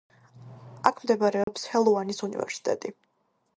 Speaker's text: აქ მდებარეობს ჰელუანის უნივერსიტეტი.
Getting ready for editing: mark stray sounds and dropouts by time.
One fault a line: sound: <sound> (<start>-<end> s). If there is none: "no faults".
sound: dropout (1.4-1.5 s)